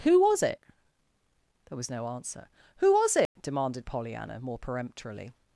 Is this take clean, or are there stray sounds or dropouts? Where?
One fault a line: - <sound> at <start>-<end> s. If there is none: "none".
- dropout at 3.3-3.4 s